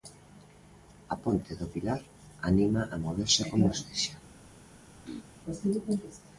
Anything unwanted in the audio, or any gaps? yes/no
yes